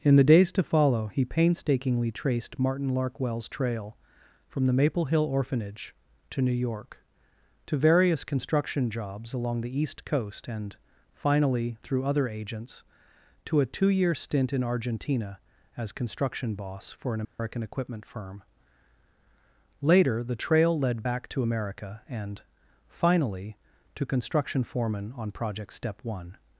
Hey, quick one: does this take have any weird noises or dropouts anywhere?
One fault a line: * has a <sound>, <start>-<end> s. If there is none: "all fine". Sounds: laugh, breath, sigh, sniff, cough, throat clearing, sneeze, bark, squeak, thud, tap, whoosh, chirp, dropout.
* has a dropout, 17.2-17.4 s